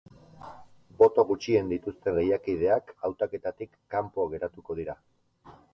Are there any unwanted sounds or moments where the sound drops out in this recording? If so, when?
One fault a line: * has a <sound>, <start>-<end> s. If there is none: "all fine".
all fine